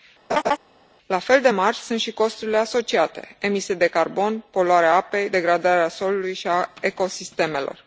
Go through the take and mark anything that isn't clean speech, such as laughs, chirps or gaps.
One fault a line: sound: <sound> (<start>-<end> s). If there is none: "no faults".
sound: laugh (0.3-0.6 s)